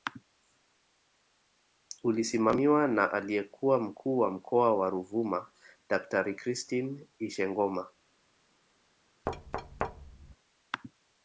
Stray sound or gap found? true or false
true